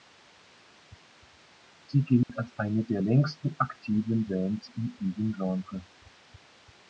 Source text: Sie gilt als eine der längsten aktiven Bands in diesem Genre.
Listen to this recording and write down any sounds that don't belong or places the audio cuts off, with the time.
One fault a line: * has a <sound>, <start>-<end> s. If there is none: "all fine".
* has a dropout, 2.2-2.3 s